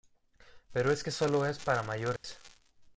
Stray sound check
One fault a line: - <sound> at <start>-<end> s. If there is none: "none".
- dropout at 2.2-2.2 s